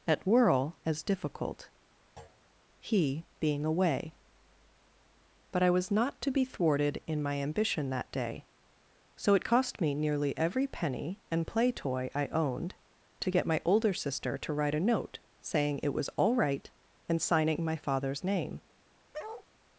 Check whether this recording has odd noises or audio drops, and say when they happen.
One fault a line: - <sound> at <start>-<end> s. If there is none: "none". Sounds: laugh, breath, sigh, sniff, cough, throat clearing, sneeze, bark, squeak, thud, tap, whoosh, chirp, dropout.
- thud at 2.2-2.4 s
- bark at 19.1-19.5 s